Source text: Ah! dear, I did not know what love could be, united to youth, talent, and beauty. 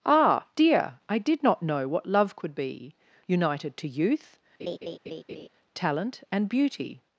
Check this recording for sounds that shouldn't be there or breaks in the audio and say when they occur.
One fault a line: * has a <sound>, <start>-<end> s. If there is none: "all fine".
* has a laugh, 4.6-5.5 s